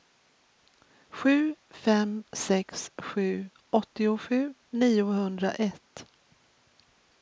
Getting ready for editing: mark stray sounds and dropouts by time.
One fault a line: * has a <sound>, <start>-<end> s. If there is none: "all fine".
all fine